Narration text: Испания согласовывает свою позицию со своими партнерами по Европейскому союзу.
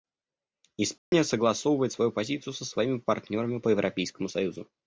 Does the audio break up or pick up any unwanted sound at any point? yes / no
yes